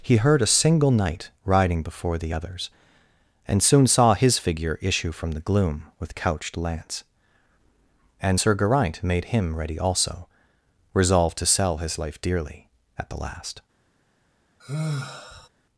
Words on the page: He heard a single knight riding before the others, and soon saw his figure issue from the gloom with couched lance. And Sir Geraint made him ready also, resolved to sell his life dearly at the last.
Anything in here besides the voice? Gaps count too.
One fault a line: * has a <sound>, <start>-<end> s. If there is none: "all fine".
* has a sigh, 14.6-15.5 s